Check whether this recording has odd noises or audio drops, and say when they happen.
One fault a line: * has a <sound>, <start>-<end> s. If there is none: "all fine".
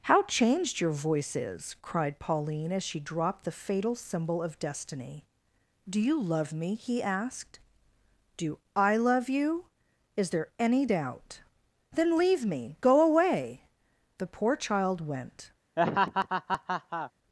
* has a laugh, 15.8-17.1 s